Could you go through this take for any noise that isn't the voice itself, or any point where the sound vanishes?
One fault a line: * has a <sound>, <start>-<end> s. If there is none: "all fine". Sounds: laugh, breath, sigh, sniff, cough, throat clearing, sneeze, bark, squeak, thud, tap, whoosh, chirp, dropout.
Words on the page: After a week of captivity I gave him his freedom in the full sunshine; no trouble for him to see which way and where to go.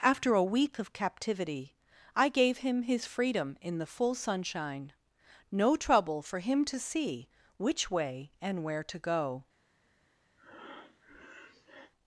* has a breath, 10.4-11.9 s